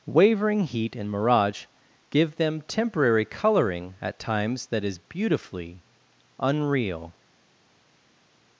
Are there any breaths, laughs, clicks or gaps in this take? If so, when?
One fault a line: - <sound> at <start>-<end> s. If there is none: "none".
none